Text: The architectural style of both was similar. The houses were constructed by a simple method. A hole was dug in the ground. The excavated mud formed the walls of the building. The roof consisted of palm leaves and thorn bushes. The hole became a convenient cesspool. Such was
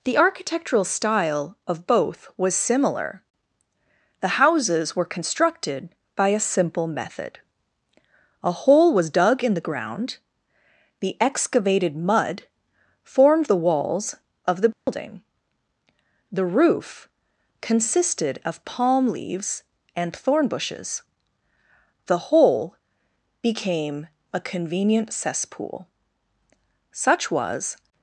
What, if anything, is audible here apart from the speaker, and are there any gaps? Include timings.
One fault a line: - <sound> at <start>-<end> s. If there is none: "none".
- dropout at 14.7-14.9 s